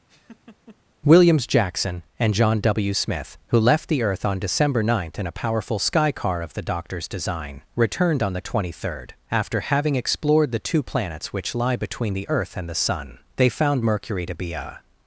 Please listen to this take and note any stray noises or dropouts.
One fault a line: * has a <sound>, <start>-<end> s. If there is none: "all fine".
* has a laugh, 0.1-0.8 s